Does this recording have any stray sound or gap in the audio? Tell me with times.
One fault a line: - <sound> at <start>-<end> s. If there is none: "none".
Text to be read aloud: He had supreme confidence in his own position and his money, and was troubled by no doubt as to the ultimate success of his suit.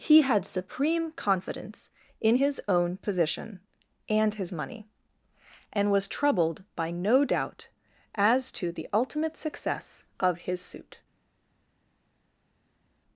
none